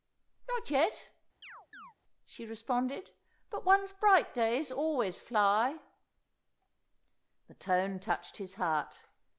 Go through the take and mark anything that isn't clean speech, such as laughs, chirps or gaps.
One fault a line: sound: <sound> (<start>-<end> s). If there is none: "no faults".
sound: chirp (1.4-1.9 s)